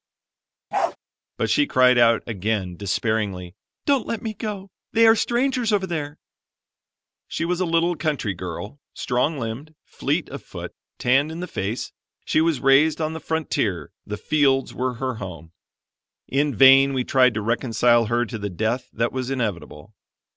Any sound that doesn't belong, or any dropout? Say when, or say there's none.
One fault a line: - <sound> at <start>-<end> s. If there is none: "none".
- bark at 0.7-1.0 s